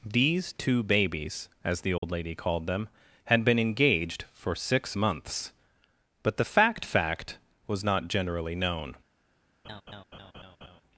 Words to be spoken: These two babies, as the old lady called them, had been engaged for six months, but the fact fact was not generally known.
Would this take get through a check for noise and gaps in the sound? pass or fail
fail